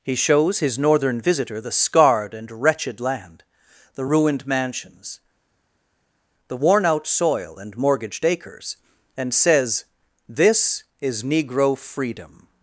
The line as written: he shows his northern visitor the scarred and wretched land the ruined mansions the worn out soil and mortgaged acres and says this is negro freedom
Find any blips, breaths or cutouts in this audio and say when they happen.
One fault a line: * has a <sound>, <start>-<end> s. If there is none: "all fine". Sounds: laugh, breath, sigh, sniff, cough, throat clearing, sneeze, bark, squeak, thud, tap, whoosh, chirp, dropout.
all fine